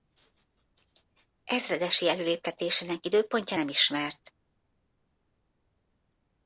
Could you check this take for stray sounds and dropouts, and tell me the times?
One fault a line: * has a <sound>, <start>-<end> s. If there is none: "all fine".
all fine